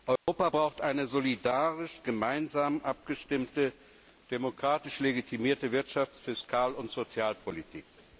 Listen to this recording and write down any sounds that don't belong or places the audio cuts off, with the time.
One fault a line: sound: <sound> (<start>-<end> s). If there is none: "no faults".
sound: dropout (0.2-0.3 s)